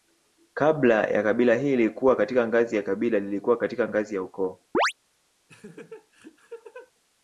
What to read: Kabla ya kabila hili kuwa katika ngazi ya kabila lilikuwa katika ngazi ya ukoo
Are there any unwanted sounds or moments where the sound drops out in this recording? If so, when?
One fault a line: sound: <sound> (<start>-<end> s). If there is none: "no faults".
sound: chirp (4.7-4.9 s)
sound: laugh (5.5-6.9 s)